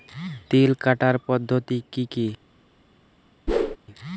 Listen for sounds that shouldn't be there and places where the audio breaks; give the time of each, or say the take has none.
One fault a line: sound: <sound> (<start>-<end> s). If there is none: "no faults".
sound: whoosh (3.5-3.8 s)